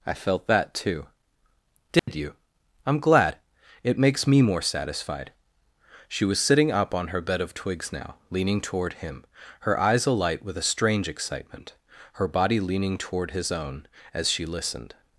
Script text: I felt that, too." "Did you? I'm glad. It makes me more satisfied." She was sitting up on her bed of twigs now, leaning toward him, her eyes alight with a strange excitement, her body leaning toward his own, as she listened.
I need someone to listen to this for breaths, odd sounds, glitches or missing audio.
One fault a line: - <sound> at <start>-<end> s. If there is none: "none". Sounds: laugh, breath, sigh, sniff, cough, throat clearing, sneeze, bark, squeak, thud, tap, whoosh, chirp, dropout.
- dropout at 2.0-2.1 s